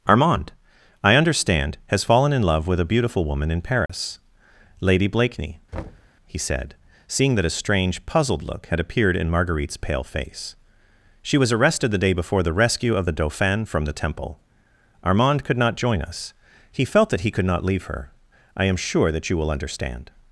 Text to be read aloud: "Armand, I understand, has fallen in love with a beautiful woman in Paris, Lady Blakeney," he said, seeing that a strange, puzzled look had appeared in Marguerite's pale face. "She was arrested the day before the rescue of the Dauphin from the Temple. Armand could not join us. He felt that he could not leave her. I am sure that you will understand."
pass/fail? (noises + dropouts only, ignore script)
fail